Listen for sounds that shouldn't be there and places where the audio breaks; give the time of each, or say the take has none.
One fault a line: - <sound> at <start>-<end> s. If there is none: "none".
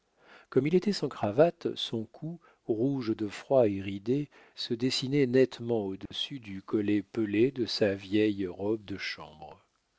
- dropout at 6.1-6.1 s